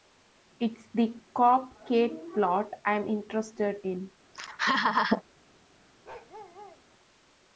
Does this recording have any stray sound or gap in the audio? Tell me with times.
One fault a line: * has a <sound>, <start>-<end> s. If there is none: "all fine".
* has a laugh, 4.3-5.2 s
* has a bark, 6.0-6.8 s